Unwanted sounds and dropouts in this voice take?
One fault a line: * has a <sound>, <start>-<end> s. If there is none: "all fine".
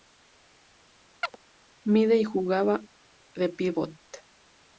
* has a chirp, 1.2-1.4 s